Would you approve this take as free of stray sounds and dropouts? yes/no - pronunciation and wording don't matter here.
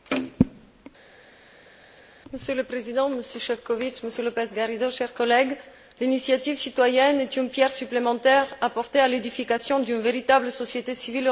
yes